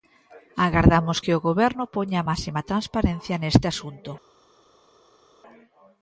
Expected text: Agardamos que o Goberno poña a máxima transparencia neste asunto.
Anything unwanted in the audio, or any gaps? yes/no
no